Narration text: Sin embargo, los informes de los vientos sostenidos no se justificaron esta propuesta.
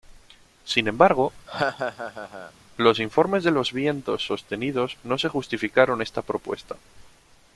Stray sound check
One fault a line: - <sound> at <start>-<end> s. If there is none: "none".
- laugh at 1.5-2.5 s